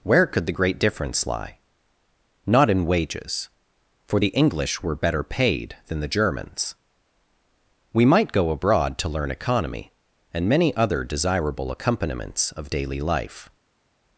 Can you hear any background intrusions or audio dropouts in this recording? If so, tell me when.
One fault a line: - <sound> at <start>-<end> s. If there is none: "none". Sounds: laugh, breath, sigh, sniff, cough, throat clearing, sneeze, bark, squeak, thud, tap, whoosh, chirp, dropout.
none